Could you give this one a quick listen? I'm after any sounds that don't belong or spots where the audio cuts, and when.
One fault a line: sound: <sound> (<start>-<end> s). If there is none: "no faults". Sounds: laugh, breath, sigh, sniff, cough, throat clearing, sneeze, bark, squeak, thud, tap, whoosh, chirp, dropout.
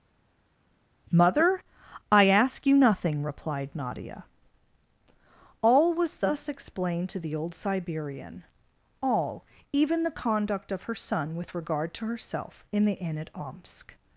no faults